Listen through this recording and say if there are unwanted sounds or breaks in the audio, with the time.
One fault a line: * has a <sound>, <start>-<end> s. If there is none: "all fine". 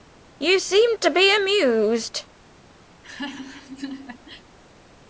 * has a laugh, 2.9-4.5 s